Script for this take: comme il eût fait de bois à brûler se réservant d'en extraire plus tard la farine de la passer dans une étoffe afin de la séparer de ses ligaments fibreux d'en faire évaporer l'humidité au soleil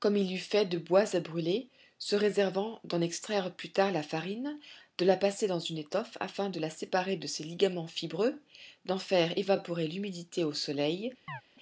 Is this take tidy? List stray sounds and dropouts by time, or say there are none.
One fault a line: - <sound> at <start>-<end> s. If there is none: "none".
- chirp at 11.3-11.4 s